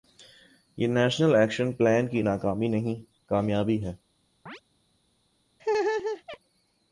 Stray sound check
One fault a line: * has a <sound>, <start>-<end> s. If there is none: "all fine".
* has a chirp, 4.5-4.6 s
* has a laugh, 5.6-6.4 s